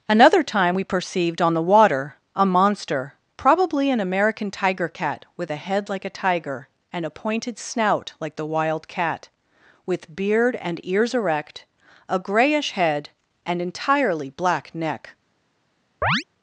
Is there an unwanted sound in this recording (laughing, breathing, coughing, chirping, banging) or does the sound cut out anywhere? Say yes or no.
yes